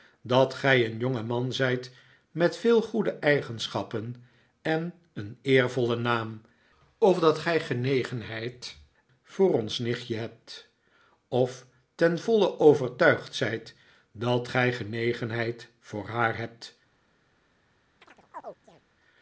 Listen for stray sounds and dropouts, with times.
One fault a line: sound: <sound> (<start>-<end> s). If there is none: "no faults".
sound: chirp (18.0-18.8 s)